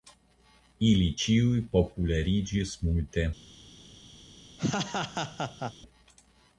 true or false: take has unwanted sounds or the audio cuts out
true